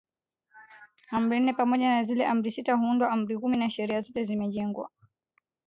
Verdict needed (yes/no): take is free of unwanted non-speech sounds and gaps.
yes